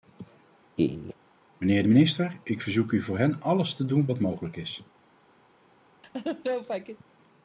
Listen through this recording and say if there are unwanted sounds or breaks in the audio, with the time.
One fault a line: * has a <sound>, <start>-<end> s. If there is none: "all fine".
* has a laugh, 0.8-1.1 s
* has a laugh, 6.0-7.0 s